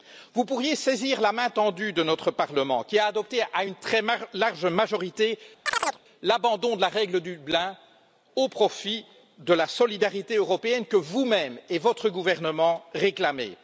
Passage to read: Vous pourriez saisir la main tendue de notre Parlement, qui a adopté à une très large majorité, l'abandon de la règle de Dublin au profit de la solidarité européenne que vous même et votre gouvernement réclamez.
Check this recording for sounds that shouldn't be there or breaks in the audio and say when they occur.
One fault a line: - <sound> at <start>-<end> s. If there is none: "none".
- chirp at 5.7-6.0 s